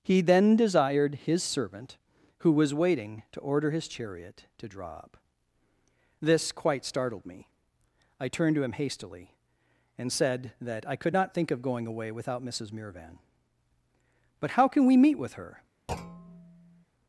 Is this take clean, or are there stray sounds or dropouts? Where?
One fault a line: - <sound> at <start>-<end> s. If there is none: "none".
- thud at 15.9-16.9 s